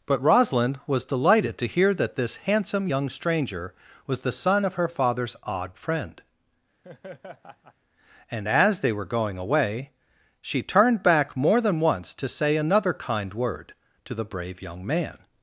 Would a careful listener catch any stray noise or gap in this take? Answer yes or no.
yes